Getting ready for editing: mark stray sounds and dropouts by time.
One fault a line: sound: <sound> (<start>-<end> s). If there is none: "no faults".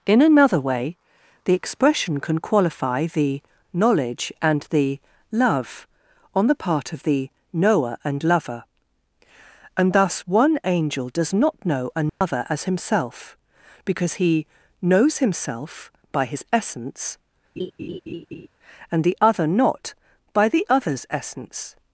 sound: dropout (12.1-12.2 s)
sound: laugh (17.6-18.5 s)